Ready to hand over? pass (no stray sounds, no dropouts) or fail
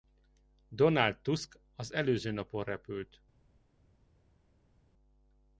pass